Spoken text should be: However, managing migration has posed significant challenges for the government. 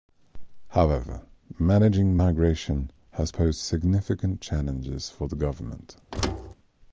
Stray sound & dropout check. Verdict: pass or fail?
fail